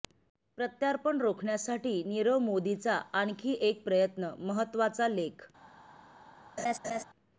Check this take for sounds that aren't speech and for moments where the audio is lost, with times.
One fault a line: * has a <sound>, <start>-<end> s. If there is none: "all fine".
* has a laugh, 6.6-7.0 s